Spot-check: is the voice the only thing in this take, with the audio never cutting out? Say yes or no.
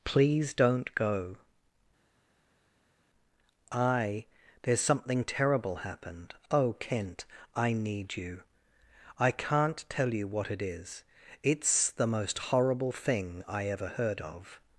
yes